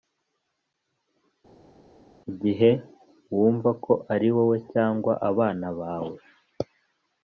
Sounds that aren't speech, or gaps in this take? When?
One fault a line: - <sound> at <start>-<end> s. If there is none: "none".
none